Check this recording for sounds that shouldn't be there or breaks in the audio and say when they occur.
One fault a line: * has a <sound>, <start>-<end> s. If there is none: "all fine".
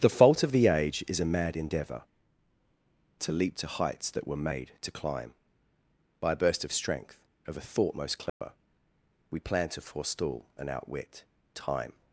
* has a dropout, 8.3-8.4 s